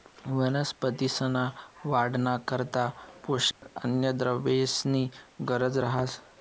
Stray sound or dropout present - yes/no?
yes